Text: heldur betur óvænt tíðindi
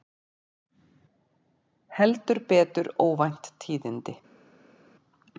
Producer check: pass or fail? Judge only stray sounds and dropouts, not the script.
pass